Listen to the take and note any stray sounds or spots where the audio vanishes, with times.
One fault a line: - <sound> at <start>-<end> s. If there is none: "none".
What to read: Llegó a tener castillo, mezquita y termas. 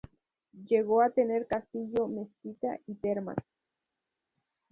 none